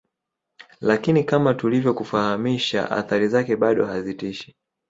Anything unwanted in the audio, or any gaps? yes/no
no